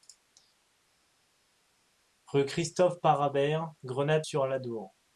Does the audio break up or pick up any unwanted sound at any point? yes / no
no